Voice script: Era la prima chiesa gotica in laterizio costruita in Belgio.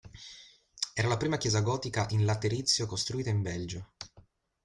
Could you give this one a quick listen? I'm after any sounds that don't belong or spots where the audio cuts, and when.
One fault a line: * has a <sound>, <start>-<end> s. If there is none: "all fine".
all fine